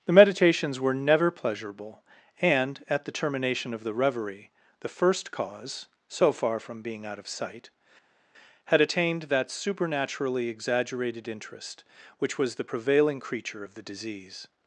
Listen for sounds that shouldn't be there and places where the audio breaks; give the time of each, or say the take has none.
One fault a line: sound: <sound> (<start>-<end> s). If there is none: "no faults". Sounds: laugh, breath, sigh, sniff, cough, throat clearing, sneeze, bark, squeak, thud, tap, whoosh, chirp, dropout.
no faults